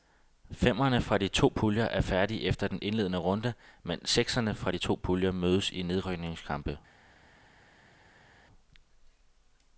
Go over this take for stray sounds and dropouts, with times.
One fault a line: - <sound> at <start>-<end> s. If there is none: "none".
none